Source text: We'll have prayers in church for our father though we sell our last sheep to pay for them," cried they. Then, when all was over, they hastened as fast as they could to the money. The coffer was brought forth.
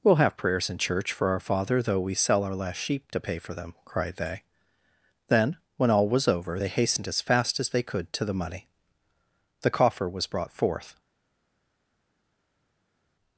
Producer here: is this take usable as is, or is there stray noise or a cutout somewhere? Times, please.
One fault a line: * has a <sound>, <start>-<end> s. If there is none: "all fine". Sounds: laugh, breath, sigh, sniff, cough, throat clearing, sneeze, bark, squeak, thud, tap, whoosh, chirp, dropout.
all fine